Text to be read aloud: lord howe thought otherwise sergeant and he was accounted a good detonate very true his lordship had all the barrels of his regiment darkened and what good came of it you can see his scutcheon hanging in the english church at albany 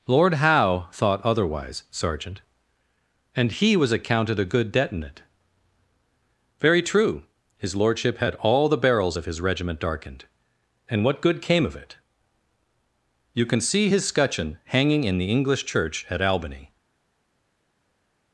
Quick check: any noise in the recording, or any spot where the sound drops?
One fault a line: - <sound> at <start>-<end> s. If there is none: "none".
none